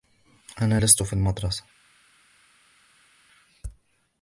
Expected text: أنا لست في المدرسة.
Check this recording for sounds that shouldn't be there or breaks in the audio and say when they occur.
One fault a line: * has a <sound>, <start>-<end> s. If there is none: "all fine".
all fine